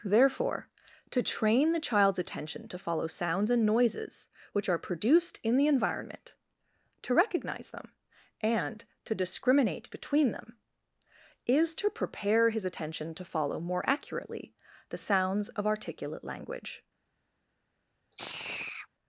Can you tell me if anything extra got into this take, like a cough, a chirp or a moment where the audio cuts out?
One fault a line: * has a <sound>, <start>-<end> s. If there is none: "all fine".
* has a sigh, 18.1-18.9 s